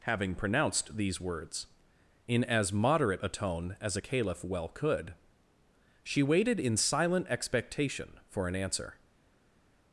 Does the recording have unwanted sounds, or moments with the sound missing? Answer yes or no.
no